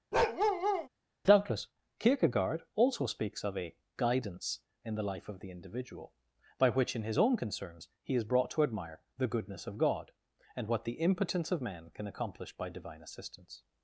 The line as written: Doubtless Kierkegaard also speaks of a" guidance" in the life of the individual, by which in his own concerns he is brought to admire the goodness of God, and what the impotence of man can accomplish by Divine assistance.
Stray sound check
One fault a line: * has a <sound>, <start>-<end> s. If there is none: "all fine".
* has a bark, 0.1-0.9 s